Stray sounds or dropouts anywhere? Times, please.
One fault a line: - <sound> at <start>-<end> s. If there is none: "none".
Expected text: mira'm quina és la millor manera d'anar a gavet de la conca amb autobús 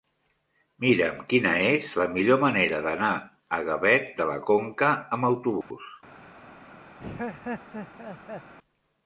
- dropout at 5.6-5.7 s
- laugh at 7.0-8.5 s